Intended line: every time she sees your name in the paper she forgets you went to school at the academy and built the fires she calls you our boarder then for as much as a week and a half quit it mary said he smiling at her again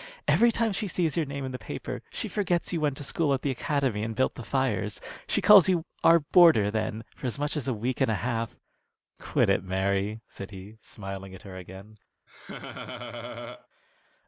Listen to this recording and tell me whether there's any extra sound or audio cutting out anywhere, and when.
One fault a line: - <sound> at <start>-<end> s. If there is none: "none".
- laugh at 12.3-13.7 s